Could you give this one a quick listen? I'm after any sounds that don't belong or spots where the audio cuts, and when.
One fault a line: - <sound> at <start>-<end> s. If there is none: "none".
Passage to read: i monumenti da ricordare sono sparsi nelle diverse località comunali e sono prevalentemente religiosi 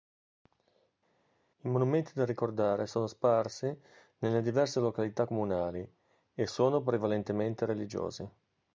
none